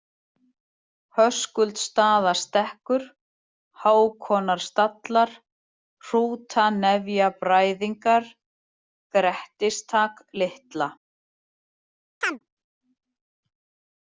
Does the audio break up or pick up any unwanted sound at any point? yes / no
yes